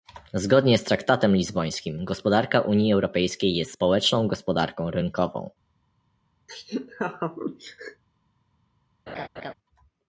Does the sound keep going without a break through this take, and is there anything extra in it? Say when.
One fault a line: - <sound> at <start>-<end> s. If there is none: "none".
- laugh at 6.5-8.0 s
- laugh at 9.1-9.5 s